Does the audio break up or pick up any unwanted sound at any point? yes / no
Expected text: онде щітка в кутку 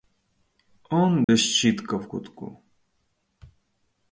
yes